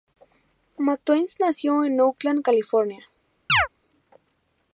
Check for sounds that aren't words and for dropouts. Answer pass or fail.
fail